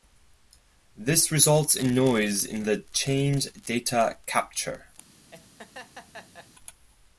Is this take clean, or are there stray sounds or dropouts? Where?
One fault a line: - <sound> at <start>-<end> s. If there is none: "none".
- laugh at 5.3-6.5 s